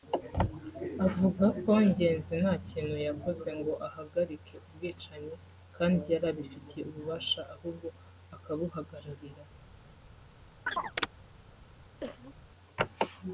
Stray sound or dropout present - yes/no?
yes